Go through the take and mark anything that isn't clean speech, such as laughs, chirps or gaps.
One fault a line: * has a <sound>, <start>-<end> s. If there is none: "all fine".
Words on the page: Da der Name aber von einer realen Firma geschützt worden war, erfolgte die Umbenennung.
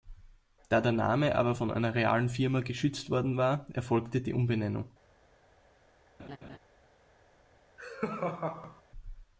* has a laugh, 6.2-6.6 s
* has a laugh, 7.8-8.8 s